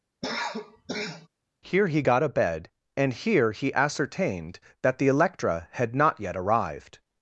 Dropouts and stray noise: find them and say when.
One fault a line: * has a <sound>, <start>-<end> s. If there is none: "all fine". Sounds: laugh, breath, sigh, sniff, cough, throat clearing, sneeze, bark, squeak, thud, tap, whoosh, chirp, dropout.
* has a cough, 0.2-1.3 s